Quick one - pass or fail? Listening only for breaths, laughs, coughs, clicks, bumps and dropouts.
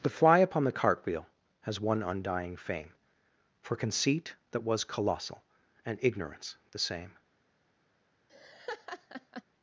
fail